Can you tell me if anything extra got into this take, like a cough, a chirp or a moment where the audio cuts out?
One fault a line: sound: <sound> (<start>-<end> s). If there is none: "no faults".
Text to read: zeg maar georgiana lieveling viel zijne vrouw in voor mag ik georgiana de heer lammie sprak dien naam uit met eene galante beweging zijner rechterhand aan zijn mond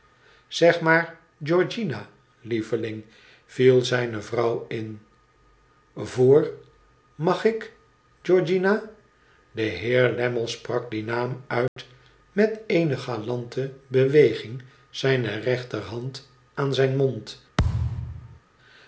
sound: dropout (11.7-11.8 s)
sound: thud (17.6-18.4 s)